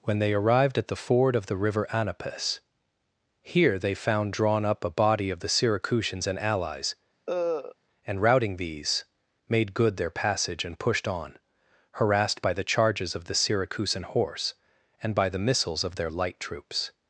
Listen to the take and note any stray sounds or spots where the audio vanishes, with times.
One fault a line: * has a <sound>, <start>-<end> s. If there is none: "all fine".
* has a cough, 7.3-7.7 s